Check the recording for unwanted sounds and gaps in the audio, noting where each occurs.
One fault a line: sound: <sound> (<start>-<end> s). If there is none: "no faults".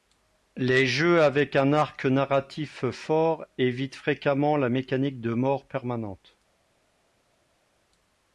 no faults